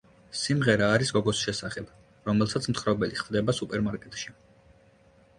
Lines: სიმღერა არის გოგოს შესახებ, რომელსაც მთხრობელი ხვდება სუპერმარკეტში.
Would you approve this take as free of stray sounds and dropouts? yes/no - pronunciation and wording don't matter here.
yes